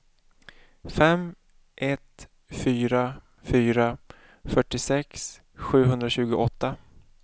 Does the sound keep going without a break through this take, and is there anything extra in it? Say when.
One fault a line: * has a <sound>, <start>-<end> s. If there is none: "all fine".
all fine